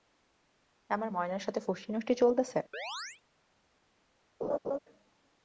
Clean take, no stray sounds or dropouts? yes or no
no